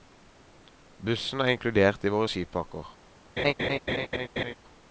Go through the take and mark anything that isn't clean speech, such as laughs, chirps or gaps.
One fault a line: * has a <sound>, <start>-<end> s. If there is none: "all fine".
* has a laugh, 3.4-4.6 s